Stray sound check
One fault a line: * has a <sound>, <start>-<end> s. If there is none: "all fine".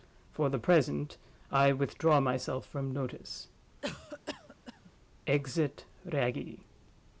* has a cough, 3.8-4.9 s